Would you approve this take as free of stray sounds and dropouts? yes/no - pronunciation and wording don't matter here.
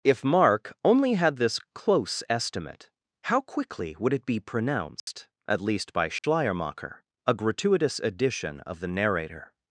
no